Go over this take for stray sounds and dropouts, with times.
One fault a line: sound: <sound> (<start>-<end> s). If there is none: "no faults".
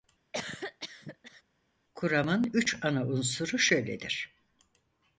sound: cough (0.3-1.4 s)